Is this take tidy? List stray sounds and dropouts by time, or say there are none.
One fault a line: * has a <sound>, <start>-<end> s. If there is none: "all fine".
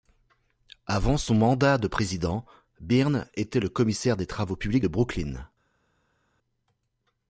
all fine